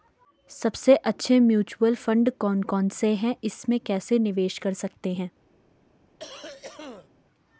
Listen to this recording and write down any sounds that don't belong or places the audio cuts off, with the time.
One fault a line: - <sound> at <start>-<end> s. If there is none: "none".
- cough at 6.2-7.1 s